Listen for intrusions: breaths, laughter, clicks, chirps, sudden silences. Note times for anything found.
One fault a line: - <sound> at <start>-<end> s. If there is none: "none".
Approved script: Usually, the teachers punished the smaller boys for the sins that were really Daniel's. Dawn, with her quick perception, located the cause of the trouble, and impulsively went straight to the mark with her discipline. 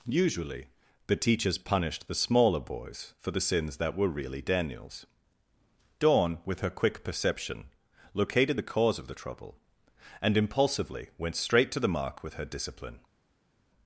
none